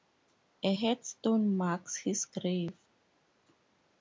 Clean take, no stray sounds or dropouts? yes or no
yes